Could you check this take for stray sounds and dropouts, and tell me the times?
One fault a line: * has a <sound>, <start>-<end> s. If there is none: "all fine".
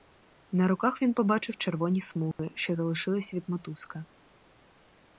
* has a dropout, 2.3-2.4 s